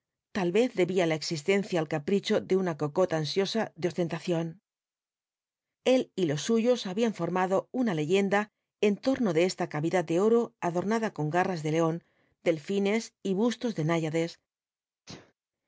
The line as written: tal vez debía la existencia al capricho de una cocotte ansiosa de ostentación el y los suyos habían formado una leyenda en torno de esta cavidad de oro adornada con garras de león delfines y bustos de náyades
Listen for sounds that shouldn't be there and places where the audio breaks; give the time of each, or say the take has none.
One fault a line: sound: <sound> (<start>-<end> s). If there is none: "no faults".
sound: sneeze (15.1-15.3 s)